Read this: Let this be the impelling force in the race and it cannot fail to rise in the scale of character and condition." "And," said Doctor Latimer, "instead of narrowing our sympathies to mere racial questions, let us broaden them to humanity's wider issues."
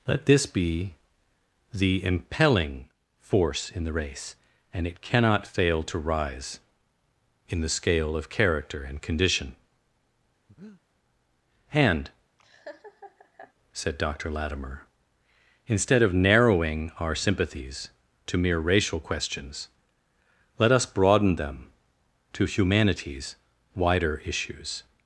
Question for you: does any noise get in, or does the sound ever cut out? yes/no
yes